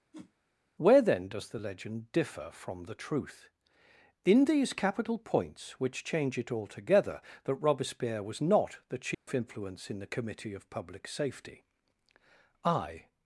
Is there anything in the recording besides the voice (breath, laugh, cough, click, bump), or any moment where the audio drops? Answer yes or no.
yes